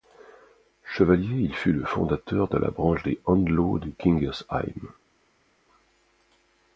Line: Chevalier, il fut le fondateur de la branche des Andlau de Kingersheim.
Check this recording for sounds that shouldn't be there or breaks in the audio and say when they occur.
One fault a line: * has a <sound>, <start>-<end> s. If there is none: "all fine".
all fine